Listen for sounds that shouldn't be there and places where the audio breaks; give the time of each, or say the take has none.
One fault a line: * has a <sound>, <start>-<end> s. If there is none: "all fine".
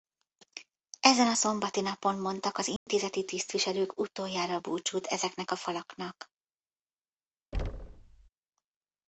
* has a dropout, 2.8-2.9 s
* has a thud, 7.5-8.3 s